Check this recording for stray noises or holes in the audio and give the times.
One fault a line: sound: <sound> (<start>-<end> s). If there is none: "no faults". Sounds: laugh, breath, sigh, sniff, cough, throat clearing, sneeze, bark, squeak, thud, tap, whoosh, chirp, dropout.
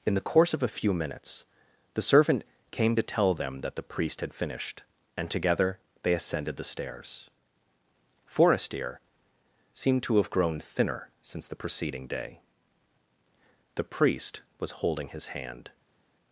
no faults